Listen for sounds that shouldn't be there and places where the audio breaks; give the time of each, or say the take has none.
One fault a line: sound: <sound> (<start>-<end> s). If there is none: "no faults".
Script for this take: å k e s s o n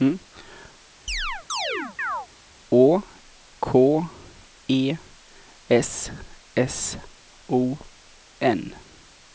sound: chirp (1.1-2.3 s)